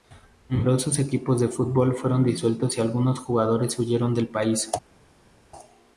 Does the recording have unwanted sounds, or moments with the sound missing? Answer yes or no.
no